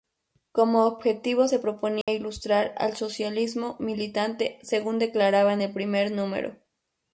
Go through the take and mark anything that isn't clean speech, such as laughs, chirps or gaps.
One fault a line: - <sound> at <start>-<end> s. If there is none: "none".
- dropout at 2.0-2.1 s